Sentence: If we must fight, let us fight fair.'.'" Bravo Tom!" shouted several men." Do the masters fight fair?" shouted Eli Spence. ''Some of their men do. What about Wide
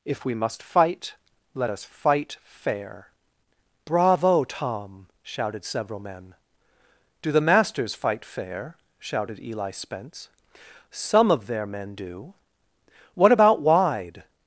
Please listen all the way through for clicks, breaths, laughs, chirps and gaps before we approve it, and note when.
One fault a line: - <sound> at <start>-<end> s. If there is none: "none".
none